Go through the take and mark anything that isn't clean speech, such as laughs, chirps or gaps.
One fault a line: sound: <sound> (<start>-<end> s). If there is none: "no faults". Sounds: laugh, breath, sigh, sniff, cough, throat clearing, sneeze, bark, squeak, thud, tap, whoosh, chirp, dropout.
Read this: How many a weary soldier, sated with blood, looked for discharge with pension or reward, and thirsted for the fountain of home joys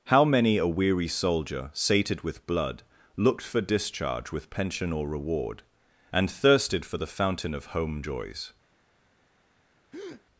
sound: breath (9.9-10.2 s)